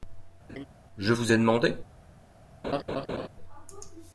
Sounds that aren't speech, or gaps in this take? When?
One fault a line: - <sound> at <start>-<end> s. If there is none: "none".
- laugh at 0.5-0.7 s
- laugh at 2.6-3.3 s